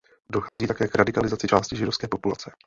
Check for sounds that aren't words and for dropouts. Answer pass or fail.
fail